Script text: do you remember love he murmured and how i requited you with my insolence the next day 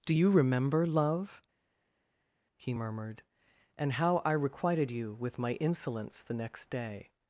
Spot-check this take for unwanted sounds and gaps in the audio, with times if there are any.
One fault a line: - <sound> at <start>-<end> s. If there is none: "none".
none